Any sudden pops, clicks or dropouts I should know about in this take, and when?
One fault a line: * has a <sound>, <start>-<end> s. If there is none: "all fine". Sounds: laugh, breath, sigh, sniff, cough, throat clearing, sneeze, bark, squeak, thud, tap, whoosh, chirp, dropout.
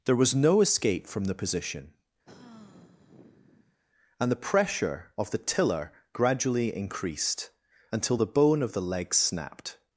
* has a sigh, 2.3-3.8 s